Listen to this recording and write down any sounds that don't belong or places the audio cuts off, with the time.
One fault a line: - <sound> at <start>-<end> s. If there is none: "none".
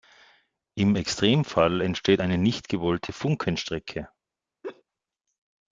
- laugh at 4.6-4.8 s